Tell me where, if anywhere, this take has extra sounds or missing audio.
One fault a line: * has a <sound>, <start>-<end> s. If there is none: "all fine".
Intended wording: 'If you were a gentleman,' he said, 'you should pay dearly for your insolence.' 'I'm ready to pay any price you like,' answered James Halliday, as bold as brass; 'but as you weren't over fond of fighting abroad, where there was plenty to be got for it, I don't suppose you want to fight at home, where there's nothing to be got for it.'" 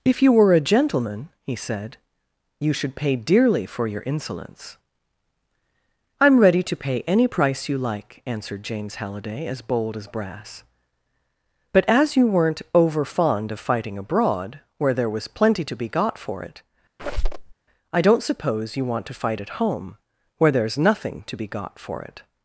* has a squeak, 17.0-17.5 s